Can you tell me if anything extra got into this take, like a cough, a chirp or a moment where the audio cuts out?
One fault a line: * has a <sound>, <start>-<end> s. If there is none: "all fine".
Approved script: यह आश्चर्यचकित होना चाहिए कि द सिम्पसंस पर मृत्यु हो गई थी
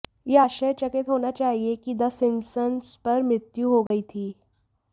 * has a dropout, 3.9-3.9 s